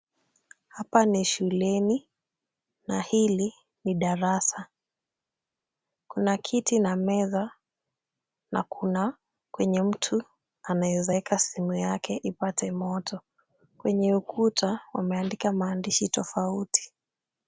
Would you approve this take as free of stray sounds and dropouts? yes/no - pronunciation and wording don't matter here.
yes